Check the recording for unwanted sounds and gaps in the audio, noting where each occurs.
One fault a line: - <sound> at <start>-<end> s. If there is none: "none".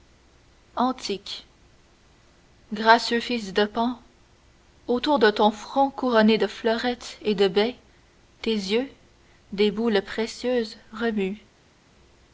none